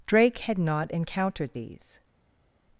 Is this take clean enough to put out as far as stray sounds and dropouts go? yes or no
yes